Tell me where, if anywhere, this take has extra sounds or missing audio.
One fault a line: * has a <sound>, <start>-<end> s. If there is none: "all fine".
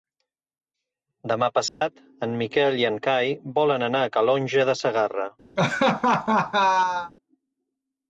* has a dropout, 1.7-1.8 s
* has a laugh, 5.6-7.1 s